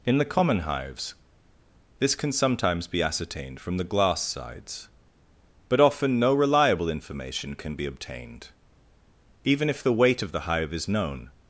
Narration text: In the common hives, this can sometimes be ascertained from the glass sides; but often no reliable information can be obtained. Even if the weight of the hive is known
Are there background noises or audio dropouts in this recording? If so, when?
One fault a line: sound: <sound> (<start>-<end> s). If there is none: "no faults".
no faults